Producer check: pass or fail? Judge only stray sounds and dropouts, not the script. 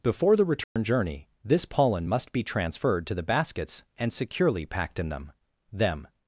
fail